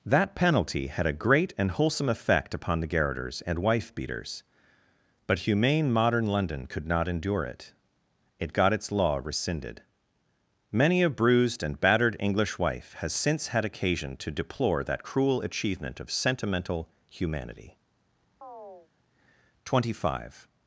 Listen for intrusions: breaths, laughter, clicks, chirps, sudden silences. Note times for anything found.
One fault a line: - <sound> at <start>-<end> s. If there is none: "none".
- chirp at 18.4-18.9 s